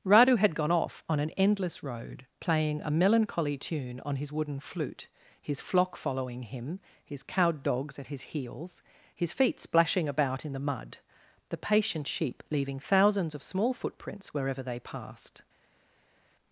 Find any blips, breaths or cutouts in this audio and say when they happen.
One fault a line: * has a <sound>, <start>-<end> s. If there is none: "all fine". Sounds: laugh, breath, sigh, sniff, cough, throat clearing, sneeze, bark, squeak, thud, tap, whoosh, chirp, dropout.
all fine